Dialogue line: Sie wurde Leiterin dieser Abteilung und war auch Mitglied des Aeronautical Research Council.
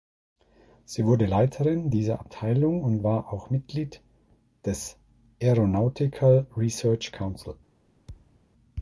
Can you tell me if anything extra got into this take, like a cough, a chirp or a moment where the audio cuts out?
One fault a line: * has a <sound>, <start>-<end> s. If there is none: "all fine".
* has a thud, 8.1-8.5 s